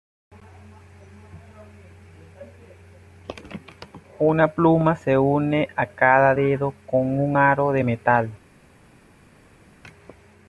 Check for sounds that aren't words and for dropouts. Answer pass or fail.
pass